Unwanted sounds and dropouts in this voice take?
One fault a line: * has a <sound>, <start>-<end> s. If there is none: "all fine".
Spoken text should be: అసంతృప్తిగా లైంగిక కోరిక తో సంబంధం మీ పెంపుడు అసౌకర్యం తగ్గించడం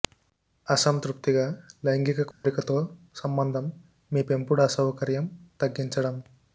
* has a dropout, 2.3-2.4 s